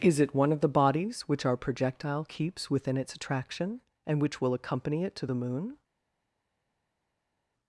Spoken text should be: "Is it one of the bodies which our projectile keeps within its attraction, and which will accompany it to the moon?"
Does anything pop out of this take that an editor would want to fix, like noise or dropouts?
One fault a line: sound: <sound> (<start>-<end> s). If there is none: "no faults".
no faults